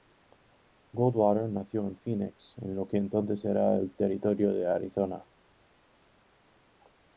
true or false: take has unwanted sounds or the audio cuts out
false